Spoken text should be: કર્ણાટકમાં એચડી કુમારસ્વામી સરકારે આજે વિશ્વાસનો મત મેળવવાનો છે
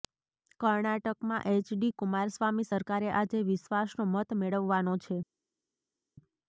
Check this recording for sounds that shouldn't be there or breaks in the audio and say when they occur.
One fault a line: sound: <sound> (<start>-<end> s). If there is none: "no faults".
no faults